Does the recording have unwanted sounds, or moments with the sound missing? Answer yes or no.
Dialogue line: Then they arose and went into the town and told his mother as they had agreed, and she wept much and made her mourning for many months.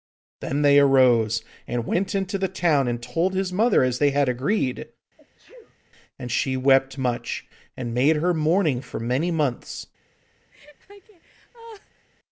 yes